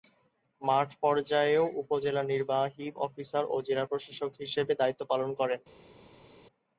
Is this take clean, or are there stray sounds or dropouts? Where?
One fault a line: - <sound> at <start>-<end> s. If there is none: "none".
none